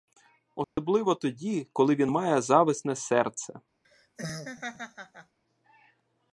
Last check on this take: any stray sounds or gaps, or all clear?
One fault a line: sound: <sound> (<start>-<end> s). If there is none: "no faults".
sound: dropout (0.6-0.8 s)
sound: laugh (3.8-5.4 s)